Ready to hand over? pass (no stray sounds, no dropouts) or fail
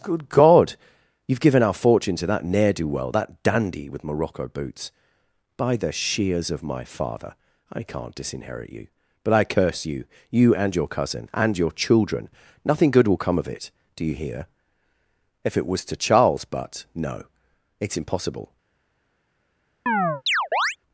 fail